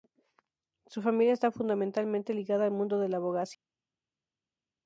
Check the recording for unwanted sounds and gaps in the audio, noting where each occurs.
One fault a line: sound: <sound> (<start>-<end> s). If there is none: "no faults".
no faults